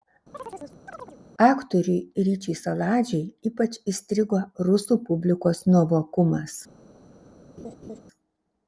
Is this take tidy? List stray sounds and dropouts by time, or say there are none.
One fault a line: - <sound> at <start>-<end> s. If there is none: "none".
- chirp at 0.3-1.2 s
- laugh at 7.6-8.0 s